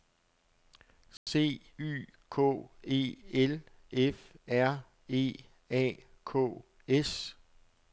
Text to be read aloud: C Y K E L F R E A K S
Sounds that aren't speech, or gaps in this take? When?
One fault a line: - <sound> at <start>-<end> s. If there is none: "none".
- dropout at 1.2-1.3 s